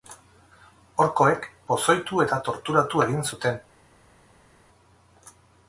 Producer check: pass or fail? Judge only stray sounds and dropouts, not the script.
pass